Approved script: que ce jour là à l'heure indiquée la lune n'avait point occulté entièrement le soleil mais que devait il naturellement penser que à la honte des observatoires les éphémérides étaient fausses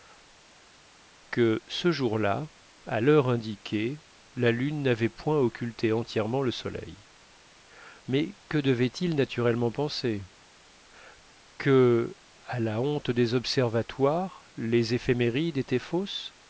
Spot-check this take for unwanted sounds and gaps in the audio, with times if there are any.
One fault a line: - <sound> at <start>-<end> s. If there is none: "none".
none